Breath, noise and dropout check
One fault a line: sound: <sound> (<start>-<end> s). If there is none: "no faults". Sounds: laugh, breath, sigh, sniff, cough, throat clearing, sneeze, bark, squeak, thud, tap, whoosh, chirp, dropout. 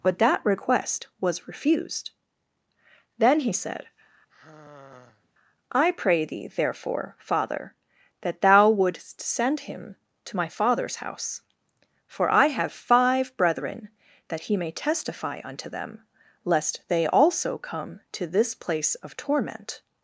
sound: sigh (4.3-5.3 s)